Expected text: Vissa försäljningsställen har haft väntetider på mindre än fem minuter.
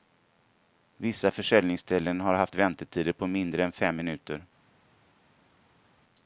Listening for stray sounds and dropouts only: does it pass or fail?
pass